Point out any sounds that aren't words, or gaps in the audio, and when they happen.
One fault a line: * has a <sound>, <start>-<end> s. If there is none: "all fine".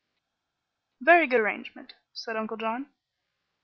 all fine